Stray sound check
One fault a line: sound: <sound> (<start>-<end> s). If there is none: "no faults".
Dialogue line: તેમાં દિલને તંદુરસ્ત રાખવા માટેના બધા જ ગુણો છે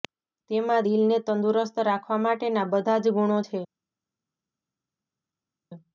no faults